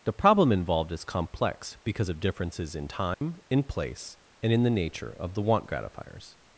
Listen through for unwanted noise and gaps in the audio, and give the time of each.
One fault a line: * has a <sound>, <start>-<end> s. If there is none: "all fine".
* has a dropout, 3.1-3.2 s